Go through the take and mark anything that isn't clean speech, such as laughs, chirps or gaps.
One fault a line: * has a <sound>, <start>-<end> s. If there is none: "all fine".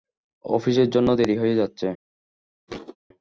* has a thud, 2.7-3.0 s